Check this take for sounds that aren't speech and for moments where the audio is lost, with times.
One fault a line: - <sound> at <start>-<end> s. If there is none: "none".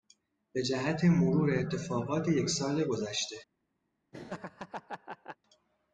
- laugh at 4.1-5.4 s